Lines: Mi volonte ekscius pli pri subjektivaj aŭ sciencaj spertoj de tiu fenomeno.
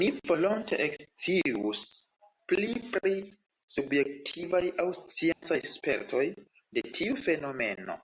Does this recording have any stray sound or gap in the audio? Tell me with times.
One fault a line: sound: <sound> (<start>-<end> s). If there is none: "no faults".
sound: dropout (5.3-5.4 s)